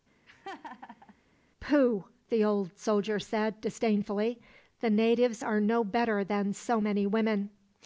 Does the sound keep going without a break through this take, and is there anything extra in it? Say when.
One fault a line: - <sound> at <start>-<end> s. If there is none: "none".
- laugh at 0.3-1.1 s